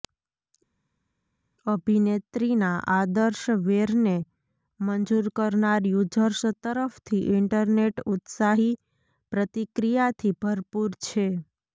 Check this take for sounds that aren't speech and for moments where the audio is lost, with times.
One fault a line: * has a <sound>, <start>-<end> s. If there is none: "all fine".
all fine